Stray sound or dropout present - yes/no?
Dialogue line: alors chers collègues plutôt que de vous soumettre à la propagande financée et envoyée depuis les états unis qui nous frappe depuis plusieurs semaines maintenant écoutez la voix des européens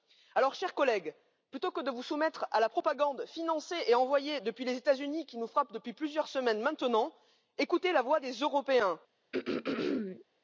yes